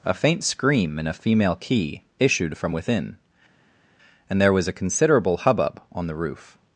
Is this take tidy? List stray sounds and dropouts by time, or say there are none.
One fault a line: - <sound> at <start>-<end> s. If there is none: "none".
none